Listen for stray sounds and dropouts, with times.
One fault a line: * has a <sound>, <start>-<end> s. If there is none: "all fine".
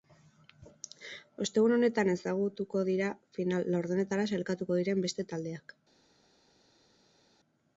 all fine